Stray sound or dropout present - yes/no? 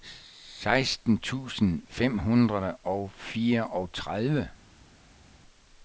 no